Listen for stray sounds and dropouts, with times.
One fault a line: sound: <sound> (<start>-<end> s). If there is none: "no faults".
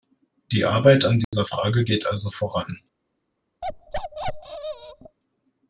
sound: dropout (1.2-1.3 s)
sound: bark (3.6-5.2 s)